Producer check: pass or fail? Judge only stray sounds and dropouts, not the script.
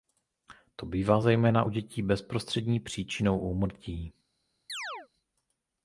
fail